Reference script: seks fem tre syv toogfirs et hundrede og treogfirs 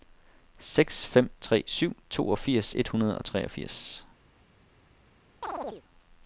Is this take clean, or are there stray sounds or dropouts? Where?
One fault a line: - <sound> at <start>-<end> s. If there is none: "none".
- chirp at 5.4-5.8 s